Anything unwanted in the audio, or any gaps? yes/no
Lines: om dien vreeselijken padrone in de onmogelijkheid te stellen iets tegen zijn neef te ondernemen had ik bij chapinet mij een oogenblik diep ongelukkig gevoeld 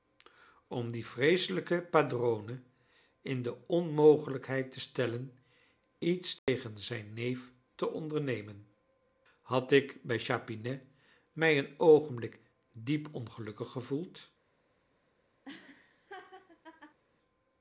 yes